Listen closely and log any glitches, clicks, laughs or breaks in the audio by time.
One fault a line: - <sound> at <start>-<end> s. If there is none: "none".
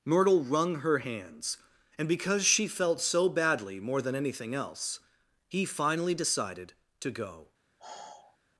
- sigh at 7.8-8.4 s